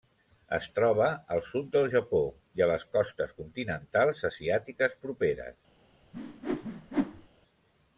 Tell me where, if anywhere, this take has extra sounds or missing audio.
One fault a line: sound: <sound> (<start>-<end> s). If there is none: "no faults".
sound: whoosh (6.1-7.3 s)